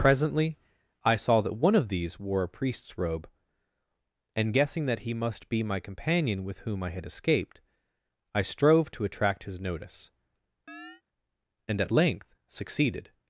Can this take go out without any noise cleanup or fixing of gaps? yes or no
no